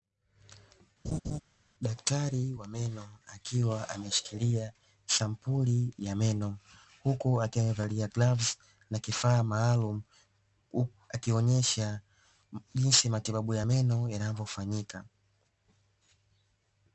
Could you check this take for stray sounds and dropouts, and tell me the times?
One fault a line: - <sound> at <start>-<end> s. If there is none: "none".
- laugh at 1.0-1.4 s